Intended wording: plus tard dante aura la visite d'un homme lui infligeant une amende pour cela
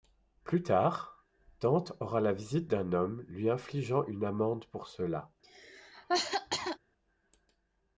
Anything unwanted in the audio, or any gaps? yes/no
yes